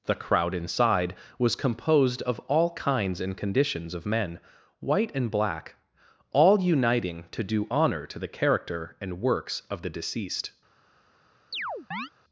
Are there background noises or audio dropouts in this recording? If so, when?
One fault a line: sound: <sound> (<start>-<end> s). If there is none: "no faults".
sound: chirp (11.5-12.1 s)